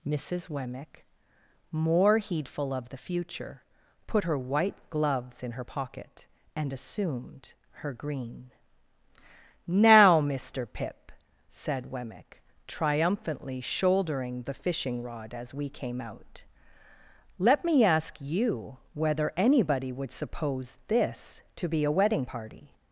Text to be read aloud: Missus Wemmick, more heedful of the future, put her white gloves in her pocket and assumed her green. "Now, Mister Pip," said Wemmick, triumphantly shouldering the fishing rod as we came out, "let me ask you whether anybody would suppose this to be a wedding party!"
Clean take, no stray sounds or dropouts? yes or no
yes